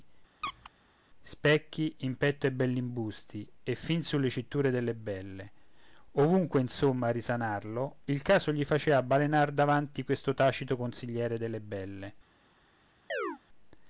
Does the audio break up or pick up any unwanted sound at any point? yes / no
yes